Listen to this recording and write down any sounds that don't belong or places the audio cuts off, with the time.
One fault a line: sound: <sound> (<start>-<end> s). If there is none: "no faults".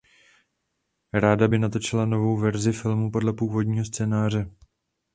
no faults